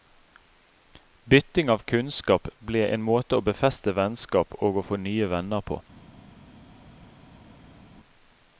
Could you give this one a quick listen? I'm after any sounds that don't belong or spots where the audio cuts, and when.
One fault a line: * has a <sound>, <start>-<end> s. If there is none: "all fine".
all fine